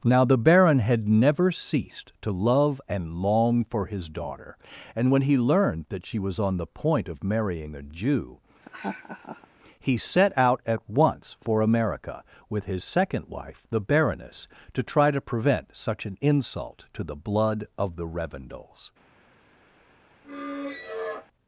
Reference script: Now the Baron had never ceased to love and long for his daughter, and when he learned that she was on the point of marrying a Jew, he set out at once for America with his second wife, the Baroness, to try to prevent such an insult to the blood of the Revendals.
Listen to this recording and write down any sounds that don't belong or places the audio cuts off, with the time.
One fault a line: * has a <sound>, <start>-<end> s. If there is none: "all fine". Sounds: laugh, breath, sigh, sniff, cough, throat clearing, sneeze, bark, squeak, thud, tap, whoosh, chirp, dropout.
* has a laugh, 8.6-9.5 s
* has a squeak, 20.2-21.3 s